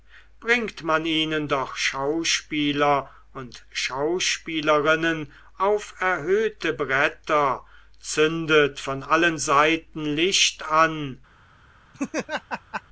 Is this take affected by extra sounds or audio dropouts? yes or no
yes